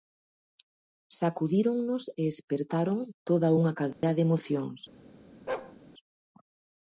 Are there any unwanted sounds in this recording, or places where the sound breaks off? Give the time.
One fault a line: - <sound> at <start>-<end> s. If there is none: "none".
- dropout at 3.9-4.0 s
- bark at 5.5-5.8 s